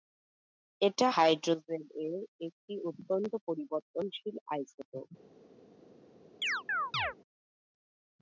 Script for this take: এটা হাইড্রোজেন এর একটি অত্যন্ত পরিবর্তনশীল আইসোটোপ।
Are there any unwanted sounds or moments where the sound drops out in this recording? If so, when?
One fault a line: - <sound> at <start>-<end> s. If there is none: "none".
- chirp at 6.4-7.1 s